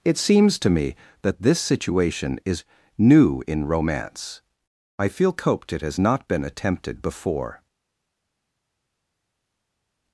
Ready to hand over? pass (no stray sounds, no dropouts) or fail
pass